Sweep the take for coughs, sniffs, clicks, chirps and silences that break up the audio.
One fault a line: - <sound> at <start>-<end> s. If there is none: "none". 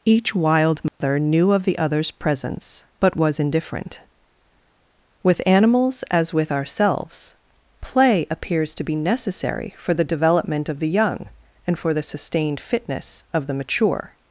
- dropout at 0.9-1.0 s